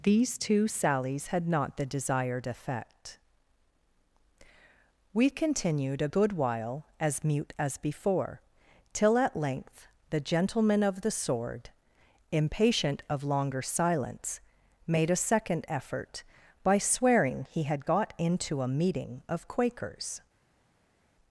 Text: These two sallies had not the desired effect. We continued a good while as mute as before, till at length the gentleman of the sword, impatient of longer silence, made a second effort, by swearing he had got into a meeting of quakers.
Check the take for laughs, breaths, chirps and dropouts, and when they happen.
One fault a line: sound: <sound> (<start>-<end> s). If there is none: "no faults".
no faults